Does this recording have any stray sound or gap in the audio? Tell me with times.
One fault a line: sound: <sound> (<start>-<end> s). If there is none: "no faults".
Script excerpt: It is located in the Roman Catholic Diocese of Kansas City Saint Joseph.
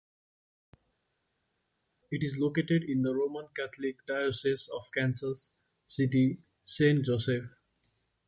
no faults